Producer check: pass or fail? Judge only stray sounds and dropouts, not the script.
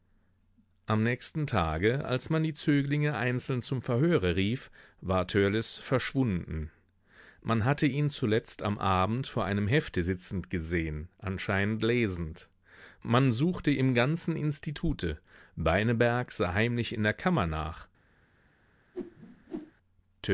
fail